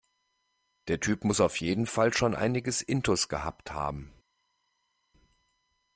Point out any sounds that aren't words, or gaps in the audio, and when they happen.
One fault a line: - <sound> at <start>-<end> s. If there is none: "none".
none